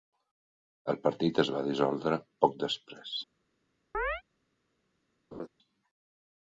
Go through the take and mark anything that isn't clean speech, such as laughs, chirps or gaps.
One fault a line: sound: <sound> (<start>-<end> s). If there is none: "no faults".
sound: chirp (3.9-4.2 s)
sound: laugh (5.3-5.5 s)